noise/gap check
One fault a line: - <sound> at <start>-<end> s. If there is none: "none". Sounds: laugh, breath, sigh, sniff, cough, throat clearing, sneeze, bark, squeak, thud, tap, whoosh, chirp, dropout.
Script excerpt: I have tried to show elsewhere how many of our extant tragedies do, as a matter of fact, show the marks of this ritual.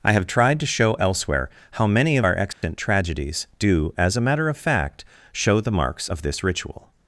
- dropout at 2.5-2.6 s